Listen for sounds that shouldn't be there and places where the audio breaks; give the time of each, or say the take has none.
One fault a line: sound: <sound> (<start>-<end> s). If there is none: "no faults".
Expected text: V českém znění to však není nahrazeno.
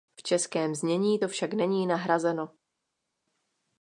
no faults